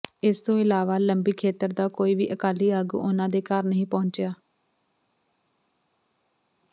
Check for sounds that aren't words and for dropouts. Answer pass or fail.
pass